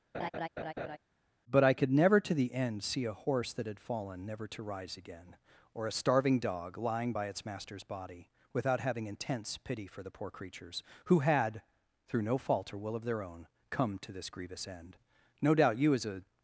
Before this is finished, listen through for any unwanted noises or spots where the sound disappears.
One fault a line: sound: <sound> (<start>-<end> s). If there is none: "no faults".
sound: laugh (0.1-1.0 s)